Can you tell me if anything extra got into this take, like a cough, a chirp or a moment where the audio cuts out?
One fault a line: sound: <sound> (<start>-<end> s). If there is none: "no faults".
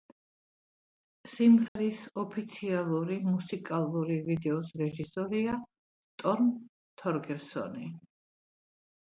sound: dropout (1.7-1.8 s)